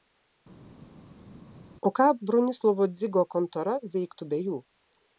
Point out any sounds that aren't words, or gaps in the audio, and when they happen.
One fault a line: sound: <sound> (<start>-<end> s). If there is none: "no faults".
no faults